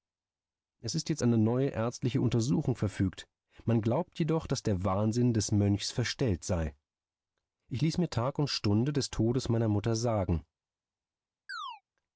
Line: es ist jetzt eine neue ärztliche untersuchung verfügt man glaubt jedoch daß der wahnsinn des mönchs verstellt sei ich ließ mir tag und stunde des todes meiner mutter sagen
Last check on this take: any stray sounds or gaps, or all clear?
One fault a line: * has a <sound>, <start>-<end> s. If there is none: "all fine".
* has a chirp, 11.5-11.8 s